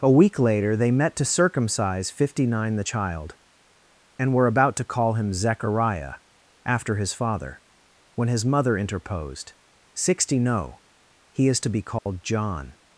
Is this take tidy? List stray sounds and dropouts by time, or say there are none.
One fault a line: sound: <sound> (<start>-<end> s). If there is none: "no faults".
sound: dropout (12.0-12.1 s)